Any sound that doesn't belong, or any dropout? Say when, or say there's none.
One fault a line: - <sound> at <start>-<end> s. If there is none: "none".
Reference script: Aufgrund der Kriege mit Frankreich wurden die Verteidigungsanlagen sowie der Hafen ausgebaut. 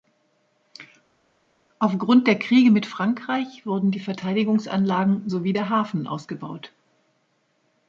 none